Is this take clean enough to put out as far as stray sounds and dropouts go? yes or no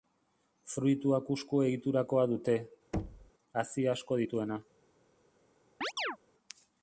no